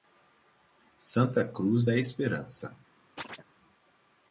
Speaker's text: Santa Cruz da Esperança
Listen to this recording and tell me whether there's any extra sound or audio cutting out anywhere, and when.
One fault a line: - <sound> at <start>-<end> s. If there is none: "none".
- chirp at 3.2-3.5 s